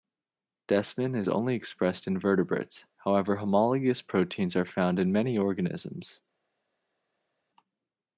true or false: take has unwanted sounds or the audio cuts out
false